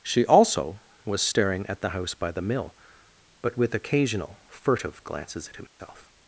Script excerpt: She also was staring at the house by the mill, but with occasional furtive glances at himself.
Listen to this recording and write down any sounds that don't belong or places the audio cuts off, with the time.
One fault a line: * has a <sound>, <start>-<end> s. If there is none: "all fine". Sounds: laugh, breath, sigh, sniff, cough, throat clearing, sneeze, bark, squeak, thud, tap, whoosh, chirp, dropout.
* has a dropout, 5.7-5.8 s